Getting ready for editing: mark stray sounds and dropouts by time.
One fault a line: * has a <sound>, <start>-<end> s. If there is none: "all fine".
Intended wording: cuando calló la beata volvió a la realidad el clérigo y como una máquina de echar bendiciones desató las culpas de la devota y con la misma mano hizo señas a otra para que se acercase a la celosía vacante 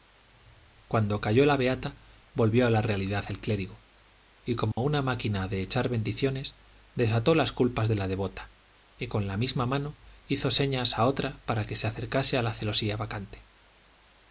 * has a dropout, 4.7-4.8 s